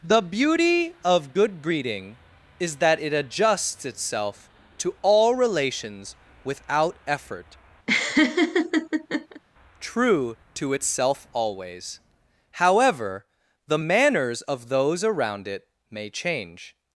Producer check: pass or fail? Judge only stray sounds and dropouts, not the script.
fail